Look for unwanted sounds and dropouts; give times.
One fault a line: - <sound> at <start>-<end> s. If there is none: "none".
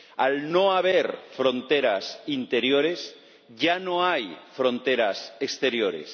none